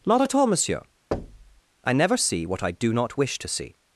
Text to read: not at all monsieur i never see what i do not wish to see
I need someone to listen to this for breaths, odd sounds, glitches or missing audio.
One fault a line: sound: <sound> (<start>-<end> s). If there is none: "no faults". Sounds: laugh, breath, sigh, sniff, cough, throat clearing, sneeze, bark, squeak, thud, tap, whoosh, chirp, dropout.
sound: thud (1.1-1.6 s)